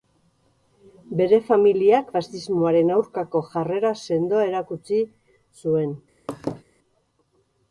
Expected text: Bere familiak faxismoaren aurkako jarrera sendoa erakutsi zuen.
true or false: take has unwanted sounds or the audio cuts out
true